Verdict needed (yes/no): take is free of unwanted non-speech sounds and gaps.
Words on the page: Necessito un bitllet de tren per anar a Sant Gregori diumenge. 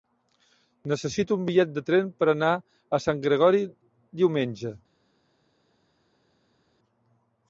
yes